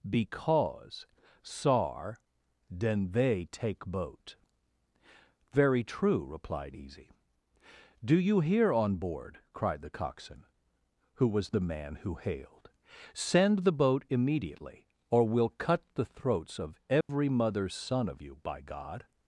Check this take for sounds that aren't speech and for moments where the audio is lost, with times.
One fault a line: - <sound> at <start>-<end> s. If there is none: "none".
- dropout at 17.0-17.1 s